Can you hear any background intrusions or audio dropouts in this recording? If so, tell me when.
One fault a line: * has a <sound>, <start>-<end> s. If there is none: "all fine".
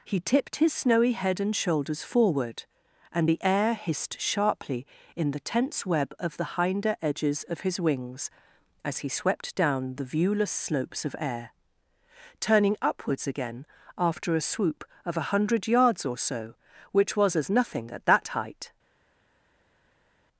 all fine